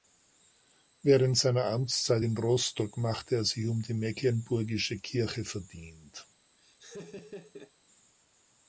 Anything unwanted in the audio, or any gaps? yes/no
yes